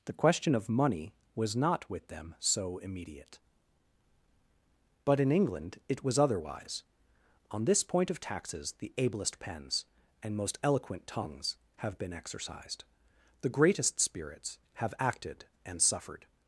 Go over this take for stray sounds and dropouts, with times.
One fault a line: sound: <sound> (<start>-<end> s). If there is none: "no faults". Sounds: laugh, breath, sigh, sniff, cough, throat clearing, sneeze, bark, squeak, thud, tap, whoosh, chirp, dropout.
no faults